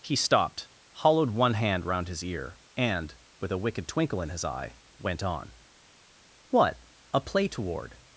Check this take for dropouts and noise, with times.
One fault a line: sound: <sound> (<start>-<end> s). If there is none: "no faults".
no faults